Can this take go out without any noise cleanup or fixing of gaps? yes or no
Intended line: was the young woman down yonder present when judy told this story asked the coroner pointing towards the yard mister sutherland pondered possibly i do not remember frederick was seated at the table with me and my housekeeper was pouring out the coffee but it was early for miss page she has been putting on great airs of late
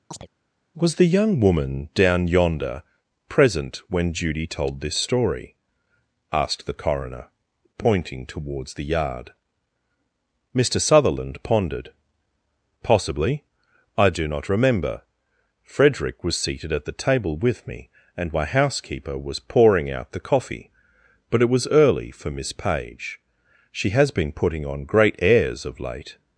no